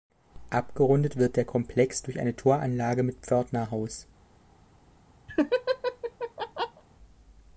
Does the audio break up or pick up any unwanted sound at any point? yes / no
yes